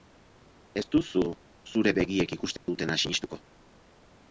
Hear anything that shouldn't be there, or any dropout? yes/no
yes